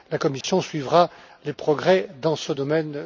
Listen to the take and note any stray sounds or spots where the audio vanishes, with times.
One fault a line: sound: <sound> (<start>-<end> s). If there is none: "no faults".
sound: dropout (0.4-0.4 s)